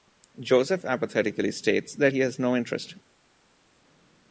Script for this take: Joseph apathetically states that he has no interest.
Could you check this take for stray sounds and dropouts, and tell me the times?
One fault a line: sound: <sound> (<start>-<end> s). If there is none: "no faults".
no faults